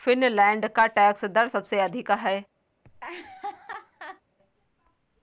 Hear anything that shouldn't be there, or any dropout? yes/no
yes